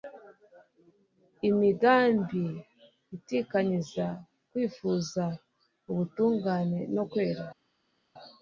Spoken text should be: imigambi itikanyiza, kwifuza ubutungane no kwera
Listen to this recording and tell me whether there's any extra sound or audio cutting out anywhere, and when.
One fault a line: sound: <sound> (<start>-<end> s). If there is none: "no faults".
no faults